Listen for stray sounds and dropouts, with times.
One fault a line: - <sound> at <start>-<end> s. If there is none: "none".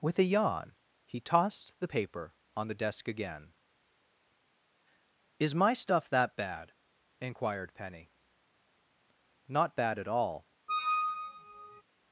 - squeak at 10.7-11.8 s